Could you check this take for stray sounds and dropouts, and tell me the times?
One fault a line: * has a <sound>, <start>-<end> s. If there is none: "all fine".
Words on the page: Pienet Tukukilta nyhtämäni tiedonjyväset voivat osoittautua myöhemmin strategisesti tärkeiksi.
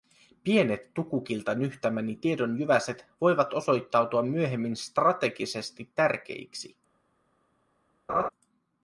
* has a laugh, 8.1-8.3 s